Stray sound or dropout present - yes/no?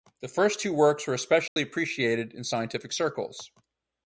yes